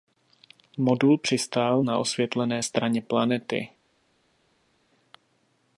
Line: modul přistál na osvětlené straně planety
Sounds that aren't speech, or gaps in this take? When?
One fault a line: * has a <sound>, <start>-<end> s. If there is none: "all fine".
all fine